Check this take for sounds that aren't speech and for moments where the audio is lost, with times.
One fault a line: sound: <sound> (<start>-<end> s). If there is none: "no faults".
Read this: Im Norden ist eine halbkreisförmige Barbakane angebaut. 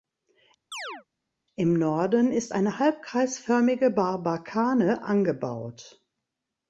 sound: chirp (0.7-1.0 s)